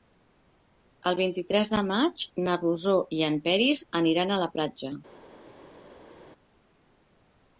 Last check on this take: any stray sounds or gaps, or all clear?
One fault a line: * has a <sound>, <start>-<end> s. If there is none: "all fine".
all fine